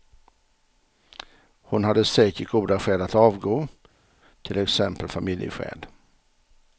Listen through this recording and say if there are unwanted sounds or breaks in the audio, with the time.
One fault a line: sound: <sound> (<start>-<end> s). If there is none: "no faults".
no faults